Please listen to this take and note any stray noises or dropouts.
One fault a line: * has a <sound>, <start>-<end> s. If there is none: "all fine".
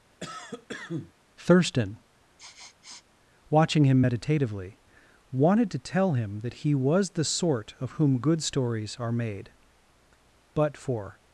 * has a cough, 0.2-1.1 s
* has a sniff, 2.4-3.0 s